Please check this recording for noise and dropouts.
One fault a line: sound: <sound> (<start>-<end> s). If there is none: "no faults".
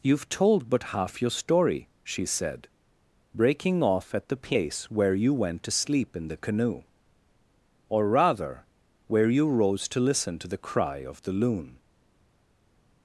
no faults